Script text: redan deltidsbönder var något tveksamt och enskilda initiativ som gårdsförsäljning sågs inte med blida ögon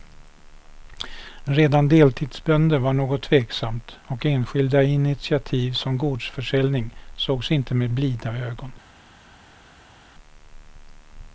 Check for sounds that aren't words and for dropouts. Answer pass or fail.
pass